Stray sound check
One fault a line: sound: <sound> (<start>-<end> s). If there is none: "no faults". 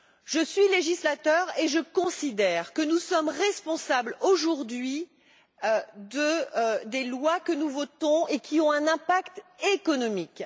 no faults